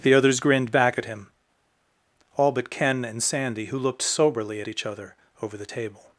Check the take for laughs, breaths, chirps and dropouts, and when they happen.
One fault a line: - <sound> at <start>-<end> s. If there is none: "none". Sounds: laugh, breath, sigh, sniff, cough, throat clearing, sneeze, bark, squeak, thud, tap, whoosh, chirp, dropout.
none